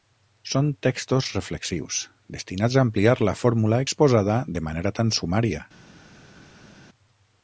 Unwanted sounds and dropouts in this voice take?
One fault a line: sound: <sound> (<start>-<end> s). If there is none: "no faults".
no faults